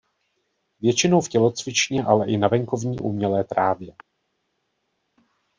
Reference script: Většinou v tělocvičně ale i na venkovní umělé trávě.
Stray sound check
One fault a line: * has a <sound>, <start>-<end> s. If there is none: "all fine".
all fine